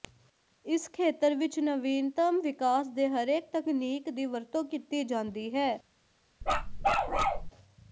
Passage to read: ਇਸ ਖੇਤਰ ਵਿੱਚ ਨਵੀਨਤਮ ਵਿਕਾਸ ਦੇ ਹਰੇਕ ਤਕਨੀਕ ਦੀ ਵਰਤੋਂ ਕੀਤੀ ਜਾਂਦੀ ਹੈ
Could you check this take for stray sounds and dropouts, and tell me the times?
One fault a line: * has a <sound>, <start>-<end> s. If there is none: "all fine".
* has a bark, 6.4-7.5 s